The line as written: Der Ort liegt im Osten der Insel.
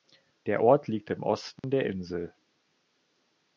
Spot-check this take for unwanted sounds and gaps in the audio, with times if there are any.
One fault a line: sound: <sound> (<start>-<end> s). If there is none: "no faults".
sound: dropout (1.6-1.6 s)